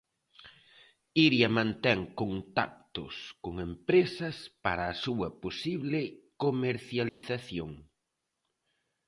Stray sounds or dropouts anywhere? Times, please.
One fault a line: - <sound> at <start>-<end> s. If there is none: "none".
- dropout at 7.1-7.2 s